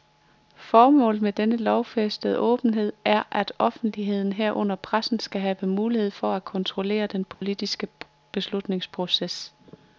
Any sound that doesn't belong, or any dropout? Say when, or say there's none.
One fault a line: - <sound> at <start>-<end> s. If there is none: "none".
- dropout at 7.3-7.4 s